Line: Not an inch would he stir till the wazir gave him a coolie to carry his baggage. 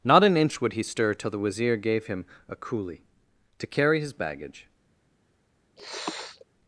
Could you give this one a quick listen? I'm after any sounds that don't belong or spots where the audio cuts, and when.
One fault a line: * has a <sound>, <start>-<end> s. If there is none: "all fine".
* has a sniff, 5.8-6.4 s